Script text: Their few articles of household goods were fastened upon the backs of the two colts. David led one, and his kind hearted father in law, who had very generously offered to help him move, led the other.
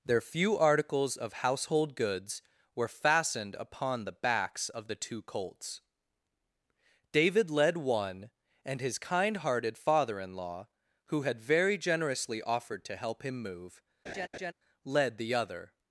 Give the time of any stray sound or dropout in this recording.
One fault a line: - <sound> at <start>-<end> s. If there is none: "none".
- laugh at 14.1-14.5 s